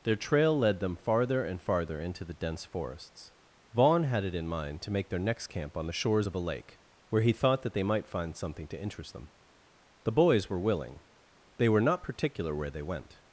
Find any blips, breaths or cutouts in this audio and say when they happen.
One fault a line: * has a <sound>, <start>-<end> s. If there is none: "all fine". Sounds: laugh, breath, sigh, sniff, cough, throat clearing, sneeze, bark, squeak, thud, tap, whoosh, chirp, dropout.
all fine